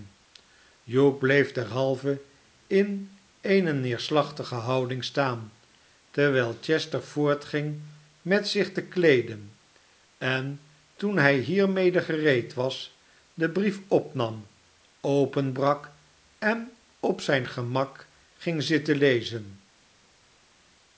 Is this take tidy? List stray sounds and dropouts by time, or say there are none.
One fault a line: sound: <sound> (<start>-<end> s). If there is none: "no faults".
no faults